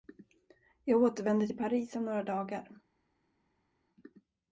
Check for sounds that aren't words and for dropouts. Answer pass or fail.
pass